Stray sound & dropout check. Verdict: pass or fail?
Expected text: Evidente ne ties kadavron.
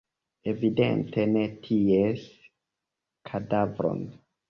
pass